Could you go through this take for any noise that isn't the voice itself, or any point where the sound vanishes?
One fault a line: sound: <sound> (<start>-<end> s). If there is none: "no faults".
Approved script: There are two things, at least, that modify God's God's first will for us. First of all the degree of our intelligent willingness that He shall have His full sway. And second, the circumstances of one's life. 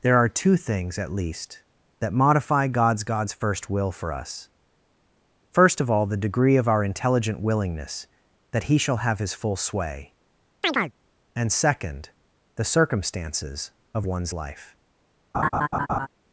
sound: chirp (10.6-10.9 s)
sound: laugh (15.3-16.1 s)